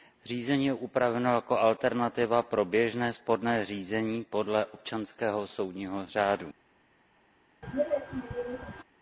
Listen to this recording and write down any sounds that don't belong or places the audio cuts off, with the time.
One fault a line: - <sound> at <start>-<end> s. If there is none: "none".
- throat clearing at 7.6-8.8 s